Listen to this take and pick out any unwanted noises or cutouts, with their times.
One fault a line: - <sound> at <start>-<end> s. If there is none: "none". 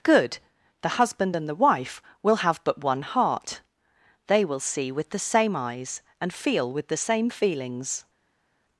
none